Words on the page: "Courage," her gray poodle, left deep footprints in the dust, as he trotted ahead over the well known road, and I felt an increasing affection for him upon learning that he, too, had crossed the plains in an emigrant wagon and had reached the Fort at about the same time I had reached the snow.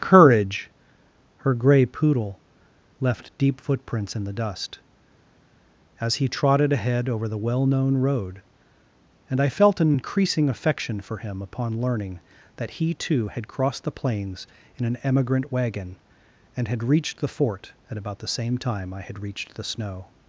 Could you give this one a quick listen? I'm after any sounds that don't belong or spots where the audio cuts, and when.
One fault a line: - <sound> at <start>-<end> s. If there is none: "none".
none